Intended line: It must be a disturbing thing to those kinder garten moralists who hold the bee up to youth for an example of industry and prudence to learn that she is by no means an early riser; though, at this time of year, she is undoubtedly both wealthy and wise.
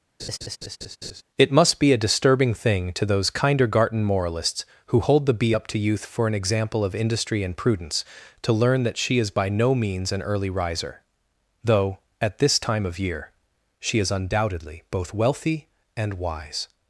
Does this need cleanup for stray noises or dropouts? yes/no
yes